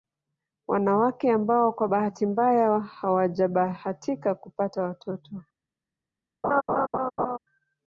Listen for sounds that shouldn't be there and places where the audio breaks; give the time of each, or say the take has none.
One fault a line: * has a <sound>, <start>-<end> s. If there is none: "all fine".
* has a laugh, 6.4-7.4 s